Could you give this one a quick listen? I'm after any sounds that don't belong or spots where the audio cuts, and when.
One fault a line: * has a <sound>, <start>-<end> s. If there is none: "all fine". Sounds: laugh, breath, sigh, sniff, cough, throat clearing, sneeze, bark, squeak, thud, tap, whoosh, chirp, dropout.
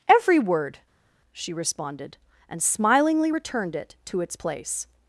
all fine